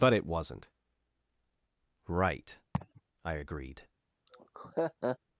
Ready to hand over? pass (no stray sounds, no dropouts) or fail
fail